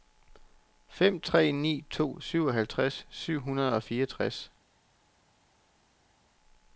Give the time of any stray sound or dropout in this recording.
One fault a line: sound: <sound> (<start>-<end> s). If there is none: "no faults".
no faults